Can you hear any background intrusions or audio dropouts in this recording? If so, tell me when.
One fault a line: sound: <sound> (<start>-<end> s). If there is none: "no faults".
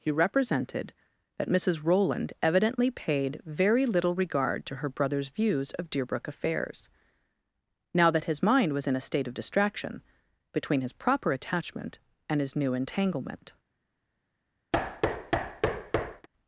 sound: thud (14.7-16.3 s)